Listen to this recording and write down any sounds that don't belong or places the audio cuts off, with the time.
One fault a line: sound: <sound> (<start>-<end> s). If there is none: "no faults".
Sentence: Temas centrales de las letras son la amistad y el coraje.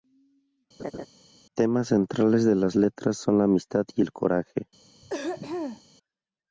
sound: laugh (0.8-1.1 s)
sound: throat clearing (5.0-5.8 s)